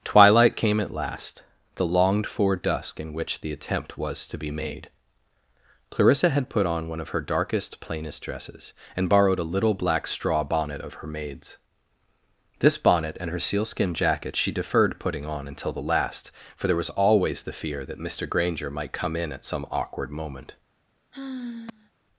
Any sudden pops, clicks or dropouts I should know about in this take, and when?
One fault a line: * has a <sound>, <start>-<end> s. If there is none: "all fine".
* has a sigh, 21.1-21.9 s